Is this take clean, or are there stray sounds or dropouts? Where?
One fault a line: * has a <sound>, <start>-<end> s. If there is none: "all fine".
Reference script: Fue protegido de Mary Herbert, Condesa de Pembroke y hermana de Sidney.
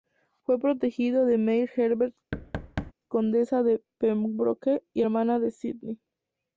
* has a thud, 2.3-2.9 s